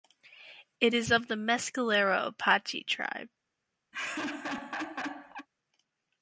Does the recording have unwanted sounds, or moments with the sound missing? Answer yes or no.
yes